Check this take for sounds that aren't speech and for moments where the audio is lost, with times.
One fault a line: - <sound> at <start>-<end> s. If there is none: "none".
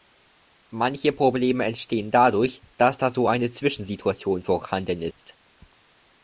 - dropout at 5.1-5.2 s